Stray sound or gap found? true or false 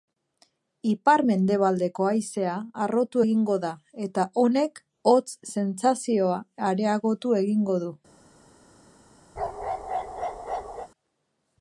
true